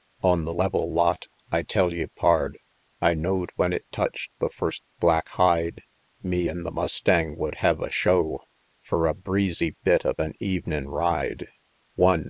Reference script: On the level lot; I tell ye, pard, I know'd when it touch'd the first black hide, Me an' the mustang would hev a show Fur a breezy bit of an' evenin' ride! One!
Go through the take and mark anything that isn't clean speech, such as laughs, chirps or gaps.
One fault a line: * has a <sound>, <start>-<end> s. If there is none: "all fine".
all fine